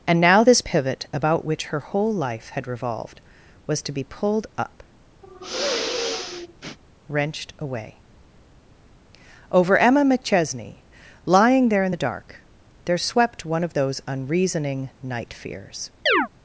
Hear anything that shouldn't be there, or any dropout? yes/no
yes